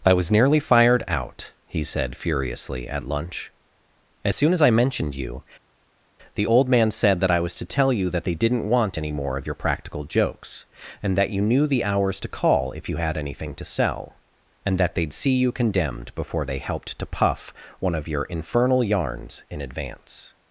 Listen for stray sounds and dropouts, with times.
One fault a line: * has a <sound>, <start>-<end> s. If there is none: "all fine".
all fine